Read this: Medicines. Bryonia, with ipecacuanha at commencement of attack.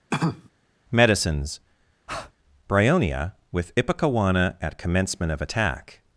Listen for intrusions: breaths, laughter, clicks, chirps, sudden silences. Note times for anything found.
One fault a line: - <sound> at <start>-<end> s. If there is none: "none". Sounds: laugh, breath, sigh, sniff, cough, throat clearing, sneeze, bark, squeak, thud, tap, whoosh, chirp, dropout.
- cough at 0.1-0.5 s
- breath at 2.1-2.3 s